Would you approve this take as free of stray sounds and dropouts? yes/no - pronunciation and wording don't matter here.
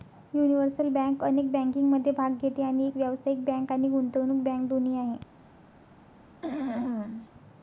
no